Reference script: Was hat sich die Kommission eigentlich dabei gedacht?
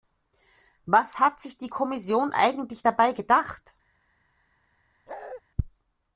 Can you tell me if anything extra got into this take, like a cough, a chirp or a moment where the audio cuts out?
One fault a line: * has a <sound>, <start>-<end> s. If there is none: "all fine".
* has a bark, 5.1-5.4 s